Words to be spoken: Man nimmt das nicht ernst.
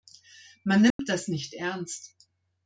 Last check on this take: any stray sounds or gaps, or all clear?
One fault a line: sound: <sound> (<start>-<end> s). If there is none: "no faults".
sound: dropout (0.9-1.0 s)